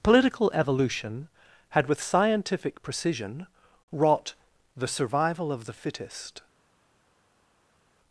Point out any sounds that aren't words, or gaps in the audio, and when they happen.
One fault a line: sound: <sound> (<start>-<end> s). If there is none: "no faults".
no faults